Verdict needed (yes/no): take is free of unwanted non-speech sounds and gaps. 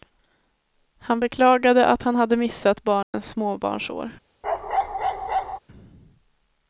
no